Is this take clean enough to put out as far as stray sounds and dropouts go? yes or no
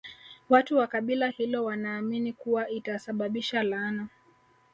yes